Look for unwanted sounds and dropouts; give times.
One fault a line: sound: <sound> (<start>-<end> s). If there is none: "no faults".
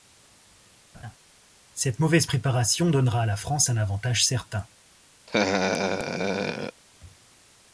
sound: laugh (0.9-1.2 s)
sound: laugh (5.3-6.8 s)